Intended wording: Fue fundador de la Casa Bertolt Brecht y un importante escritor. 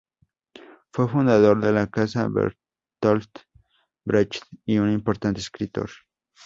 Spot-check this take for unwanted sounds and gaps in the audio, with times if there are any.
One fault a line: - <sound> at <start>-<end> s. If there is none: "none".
none